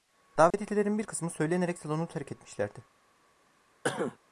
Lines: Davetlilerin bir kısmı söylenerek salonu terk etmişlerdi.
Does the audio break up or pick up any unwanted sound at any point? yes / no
yes